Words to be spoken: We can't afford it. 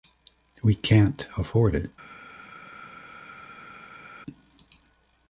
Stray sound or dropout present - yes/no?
no